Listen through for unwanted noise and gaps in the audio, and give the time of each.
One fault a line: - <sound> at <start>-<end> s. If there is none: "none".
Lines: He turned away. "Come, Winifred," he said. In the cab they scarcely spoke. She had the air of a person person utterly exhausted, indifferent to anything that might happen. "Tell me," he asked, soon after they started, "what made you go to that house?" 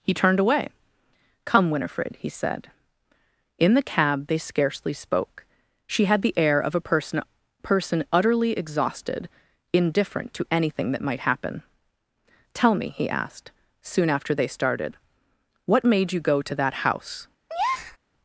- breath at 17.5-18.0 s